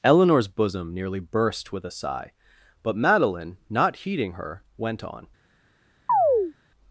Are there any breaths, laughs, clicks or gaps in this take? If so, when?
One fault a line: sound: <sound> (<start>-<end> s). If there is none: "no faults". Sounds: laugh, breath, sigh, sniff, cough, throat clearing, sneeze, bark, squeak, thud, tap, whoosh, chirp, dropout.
sound: chirp (6.1-6.5 s)